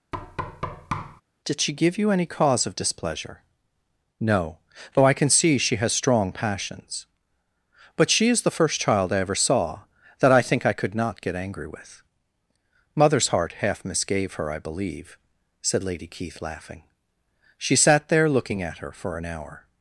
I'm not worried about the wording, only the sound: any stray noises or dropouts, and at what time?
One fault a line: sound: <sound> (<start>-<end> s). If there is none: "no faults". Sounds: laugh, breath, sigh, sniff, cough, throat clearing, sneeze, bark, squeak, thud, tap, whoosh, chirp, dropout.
sound: thud (0.1-1.2 s)